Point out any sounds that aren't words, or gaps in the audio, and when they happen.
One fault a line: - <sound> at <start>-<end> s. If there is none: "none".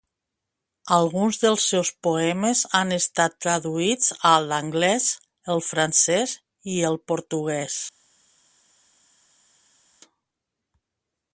none